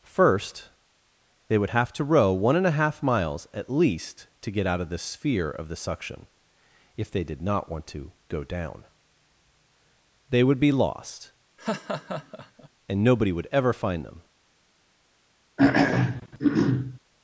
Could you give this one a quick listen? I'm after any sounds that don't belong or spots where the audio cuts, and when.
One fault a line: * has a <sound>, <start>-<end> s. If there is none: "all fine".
* has a laugh, 11.6-12.7 s
* has a throat clearing, 15.6-17.0 s